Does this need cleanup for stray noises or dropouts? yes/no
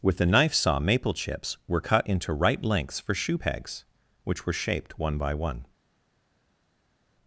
no